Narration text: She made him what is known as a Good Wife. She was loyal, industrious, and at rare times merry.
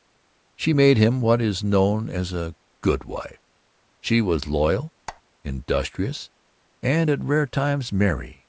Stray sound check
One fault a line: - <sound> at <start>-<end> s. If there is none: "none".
- squeak at 5.1-5.2 s